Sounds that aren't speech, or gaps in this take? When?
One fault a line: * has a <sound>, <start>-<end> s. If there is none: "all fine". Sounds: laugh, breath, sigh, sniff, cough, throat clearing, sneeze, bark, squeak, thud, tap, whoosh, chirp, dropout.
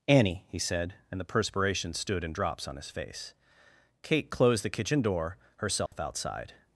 * has a dropout, 5.9-5.9 s